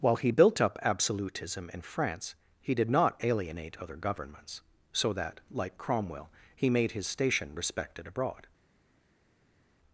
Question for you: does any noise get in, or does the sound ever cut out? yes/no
no